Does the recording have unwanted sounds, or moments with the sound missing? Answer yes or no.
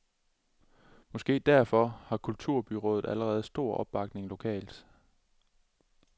no